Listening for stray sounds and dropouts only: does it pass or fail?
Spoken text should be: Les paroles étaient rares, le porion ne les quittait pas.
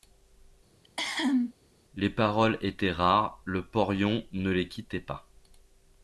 fail